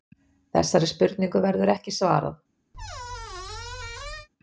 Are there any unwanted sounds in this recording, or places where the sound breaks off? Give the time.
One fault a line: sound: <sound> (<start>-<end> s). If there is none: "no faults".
sound: squeak (2.7-4.3 s)